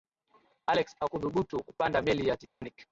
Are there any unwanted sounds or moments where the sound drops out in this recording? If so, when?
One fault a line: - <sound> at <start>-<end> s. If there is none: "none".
- dropout at 2.5-2.6 s